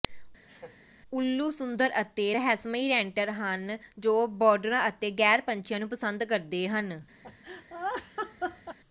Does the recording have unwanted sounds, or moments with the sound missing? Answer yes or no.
yes